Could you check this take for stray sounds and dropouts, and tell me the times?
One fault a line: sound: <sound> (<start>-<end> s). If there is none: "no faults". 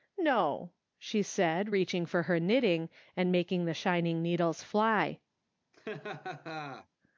sound: laugh (5.7-6.9 s)